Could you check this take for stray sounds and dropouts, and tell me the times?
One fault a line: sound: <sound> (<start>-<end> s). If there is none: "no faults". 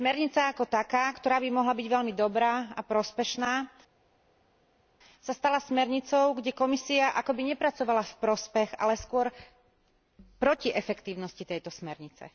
no faults